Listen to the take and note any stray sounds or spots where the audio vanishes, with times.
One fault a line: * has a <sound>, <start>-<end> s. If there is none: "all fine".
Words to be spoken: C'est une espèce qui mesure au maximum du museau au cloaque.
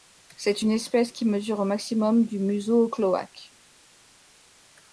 all fine